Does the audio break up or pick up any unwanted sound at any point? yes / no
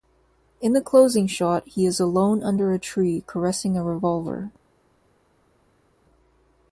no